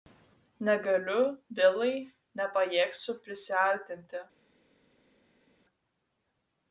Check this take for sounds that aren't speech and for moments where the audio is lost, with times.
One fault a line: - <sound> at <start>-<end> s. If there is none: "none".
none